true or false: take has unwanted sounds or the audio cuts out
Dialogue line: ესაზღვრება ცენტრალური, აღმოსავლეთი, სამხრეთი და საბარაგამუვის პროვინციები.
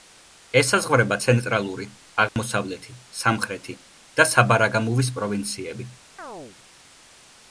true